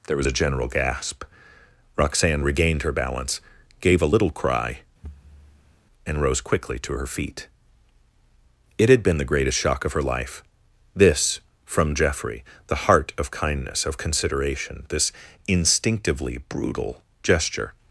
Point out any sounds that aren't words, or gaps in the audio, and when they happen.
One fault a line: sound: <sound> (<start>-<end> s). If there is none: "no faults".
sound: thud (5.0-5.8 s)